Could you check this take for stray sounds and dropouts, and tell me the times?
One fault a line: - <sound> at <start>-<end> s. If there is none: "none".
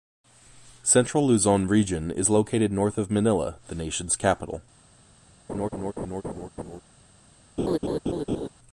- laugh at 5.5-6.8 s
- laugh at 7.6-8.5 s